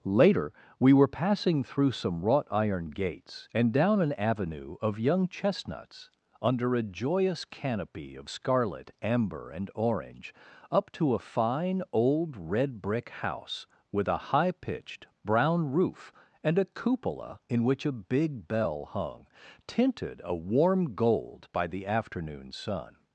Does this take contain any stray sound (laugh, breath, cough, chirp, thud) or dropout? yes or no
no